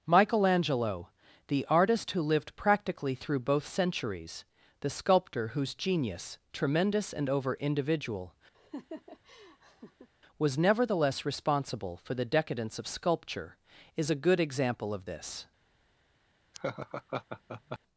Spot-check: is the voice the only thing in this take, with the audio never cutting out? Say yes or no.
no